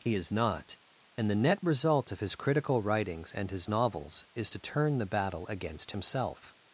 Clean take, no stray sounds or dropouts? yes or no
yes